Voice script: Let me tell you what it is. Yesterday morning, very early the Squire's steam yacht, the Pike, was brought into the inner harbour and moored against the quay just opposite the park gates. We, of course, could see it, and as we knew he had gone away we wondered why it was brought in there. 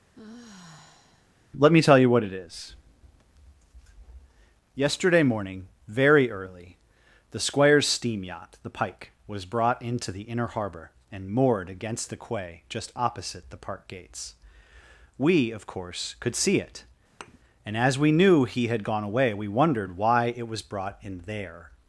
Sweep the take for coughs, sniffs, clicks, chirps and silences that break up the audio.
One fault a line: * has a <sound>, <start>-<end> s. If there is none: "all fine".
* has a sigh, 0.2-1.3 s
* has a thud, 17.2-17.4 s